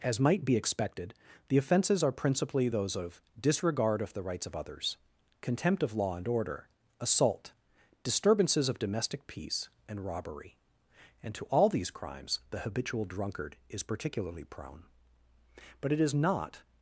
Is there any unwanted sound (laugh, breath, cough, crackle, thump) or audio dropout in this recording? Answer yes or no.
no